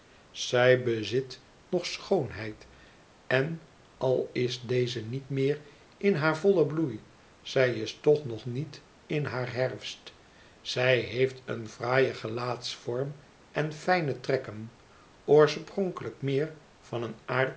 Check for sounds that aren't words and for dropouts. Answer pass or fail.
pass